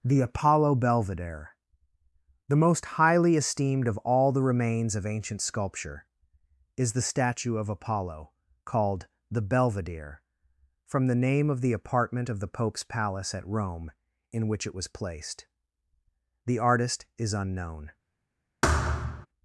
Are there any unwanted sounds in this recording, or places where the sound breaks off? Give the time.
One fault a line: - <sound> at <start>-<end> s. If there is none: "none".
- thud at 18.6-19.3 s